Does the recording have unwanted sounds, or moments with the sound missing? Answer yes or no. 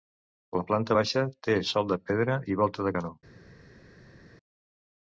no